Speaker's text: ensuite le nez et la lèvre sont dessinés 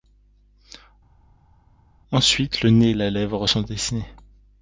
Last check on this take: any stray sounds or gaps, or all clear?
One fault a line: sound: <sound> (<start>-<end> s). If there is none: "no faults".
no faults